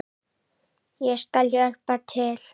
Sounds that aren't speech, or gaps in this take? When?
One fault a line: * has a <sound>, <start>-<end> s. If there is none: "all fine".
all fine